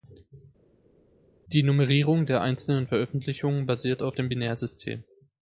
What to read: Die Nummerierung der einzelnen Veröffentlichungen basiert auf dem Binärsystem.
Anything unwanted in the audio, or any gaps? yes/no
no